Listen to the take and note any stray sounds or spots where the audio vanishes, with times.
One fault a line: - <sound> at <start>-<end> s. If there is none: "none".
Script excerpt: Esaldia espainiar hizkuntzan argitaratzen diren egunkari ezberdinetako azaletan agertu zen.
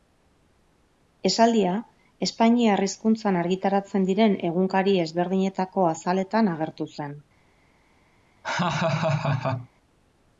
- laugh at 8.4-9.7 s